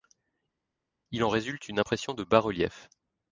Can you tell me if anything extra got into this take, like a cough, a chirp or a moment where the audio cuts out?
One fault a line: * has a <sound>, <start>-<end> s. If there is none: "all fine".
all fine